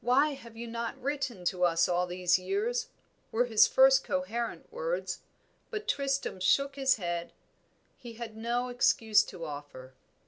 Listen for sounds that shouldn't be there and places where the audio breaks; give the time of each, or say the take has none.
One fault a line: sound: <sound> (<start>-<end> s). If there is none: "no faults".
no faults